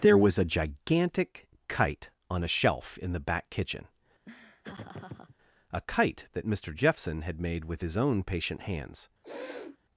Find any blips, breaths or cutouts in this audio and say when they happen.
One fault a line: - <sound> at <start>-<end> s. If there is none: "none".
- laugh at 4.3-5.4 s
- sniff at 9.2-9.8 s